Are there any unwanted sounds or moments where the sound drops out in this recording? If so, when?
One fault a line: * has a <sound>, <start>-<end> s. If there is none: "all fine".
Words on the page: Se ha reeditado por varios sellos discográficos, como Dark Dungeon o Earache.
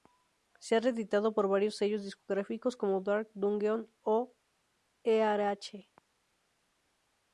all fine